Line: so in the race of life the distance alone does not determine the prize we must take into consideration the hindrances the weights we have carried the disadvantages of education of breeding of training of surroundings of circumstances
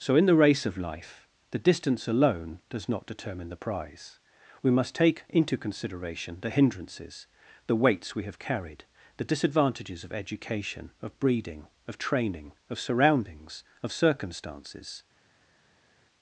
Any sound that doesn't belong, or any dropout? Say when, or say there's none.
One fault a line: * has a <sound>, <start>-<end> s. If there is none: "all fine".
all fine